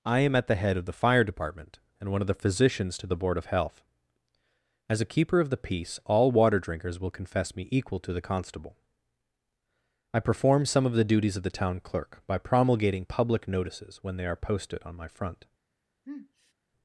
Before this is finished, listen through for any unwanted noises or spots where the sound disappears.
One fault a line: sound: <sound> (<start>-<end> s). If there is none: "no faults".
sound: sniff (16.0-16.5 s)